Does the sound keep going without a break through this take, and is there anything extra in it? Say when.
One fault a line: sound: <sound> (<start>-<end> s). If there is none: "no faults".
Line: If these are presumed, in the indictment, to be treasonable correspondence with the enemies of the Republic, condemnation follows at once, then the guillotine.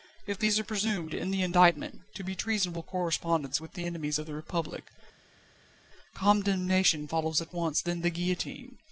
no faults